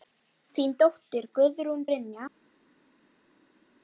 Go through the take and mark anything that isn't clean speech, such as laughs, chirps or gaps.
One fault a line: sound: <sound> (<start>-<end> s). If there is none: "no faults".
no faults